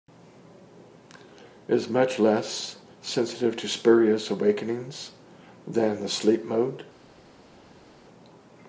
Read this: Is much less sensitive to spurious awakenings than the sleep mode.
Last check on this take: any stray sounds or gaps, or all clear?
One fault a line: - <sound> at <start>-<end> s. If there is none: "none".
none